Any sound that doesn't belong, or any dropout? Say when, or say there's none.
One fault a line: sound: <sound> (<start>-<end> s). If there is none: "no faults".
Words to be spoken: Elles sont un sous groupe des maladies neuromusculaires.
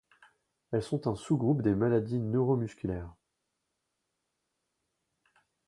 no faults